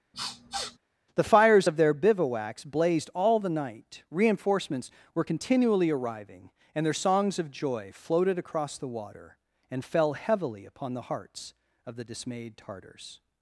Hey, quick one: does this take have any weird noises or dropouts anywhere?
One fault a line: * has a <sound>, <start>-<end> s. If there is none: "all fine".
* has a sniff, 0.1-0.8 s